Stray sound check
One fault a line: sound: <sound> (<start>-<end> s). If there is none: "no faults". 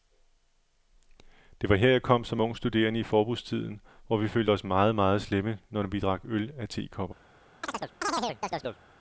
sound: chirp (7.6-8.8 s)